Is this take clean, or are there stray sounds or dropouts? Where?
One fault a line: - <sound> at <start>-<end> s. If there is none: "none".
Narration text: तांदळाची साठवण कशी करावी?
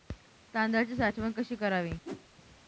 - whoosh at 2.0-2.3 s